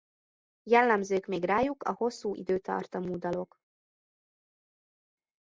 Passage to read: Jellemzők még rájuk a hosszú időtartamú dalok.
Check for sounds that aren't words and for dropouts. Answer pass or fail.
pass